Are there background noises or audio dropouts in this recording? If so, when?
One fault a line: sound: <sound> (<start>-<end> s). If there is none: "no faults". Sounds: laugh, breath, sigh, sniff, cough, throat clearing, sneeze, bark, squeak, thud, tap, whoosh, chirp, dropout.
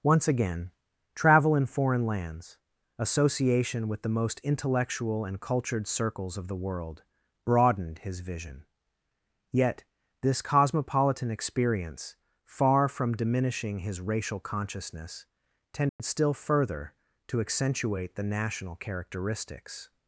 sound: dropout (15.9-16.0 s)